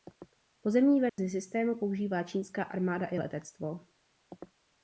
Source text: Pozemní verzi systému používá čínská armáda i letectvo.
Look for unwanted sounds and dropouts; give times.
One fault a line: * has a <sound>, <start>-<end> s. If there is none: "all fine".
* has a dropout, 1.1-1.2 s